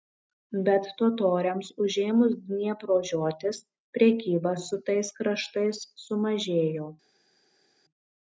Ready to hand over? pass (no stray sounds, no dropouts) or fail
pass